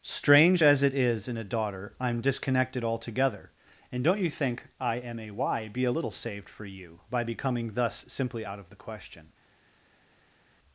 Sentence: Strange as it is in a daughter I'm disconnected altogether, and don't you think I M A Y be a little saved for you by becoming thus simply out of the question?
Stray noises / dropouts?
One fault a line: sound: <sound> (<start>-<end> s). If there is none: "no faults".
no faults